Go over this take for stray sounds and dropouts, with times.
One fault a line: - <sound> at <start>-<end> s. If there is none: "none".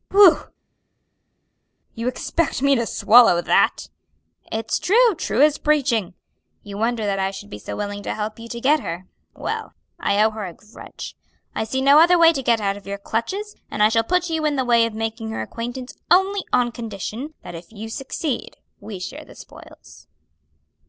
none